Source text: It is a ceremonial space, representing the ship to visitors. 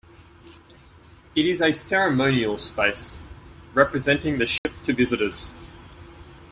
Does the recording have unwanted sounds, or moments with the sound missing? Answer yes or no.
yes